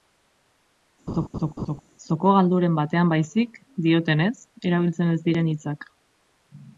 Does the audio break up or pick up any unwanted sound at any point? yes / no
yes